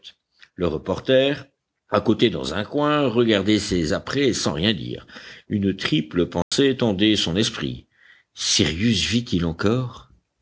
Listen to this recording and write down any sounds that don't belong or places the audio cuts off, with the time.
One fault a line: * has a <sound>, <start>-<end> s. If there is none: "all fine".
* has a dropout, 6.4-6.5 s